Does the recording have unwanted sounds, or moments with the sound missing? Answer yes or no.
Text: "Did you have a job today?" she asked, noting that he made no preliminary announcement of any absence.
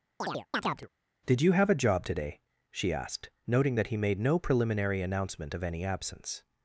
yes